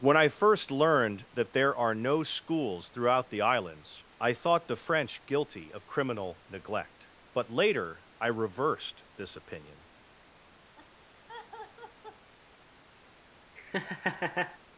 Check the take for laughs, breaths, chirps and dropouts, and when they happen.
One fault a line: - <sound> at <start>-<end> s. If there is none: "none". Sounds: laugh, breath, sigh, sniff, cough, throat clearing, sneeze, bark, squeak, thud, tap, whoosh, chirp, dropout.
- laugh at 10.8-12.3 s
- laugh at 13.6-14.6 s